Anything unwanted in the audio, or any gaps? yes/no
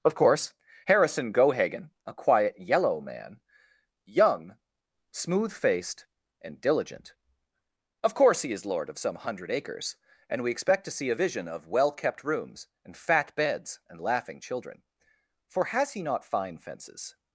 no